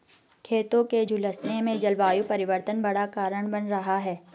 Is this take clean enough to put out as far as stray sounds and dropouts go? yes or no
yes